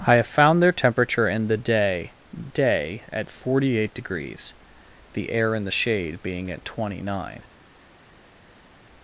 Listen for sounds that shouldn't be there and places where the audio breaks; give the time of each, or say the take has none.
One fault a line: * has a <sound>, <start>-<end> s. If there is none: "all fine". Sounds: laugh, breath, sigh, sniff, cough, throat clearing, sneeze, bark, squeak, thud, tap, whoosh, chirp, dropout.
all fine